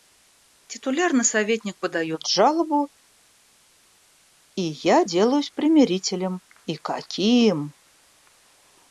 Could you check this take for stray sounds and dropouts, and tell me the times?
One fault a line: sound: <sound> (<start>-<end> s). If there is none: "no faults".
no faults